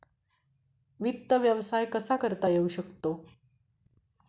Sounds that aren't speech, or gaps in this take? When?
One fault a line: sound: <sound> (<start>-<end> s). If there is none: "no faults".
no faults